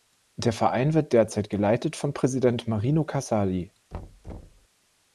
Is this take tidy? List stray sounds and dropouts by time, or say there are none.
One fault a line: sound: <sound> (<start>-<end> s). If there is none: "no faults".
sound: thud (3.9-4.7 s)